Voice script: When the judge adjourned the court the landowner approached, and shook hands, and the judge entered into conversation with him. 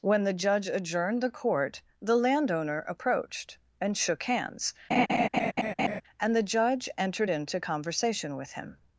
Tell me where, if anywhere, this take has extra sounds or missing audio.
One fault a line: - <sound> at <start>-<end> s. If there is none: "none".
- laugh at 4.9-6.0 s